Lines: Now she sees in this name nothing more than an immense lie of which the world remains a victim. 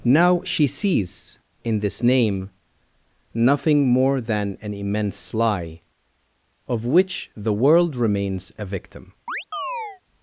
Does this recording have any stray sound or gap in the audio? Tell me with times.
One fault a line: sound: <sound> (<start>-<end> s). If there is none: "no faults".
sound: chirp (9.3-10.0 s)